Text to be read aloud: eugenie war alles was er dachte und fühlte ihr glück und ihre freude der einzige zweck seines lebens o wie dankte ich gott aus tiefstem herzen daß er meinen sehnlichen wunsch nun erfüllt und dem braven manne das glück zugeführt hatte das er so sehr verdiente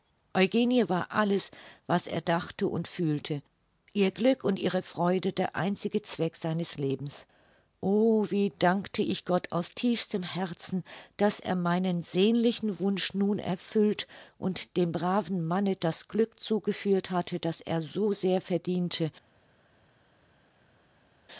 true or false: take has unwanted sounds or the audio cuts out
false